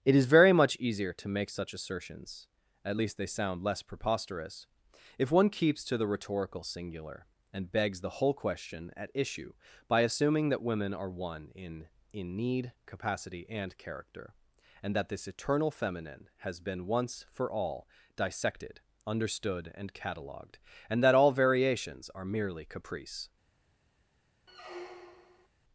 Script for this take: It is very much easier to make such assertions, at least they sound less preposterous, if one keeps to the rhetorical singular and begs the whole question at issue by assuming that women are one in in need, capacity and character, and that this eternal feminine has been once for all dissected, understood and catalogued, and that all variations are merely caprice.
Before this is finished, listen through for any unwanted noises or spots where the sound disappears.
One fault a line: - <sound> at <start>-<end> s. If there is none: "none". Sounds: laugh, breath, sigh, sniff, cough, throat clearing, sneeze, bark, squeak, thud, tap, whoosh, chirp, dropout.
- squeak at 24.5-25.5 s